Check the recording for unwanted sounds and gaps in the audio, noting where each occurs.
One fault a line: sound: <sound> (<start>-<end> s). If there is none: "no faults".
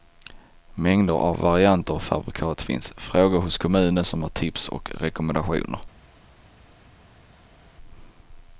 no faults